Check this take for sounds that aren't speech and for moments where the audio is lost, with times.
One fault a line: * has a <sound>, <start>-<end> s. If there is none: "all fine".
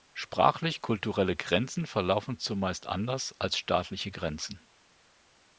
all fine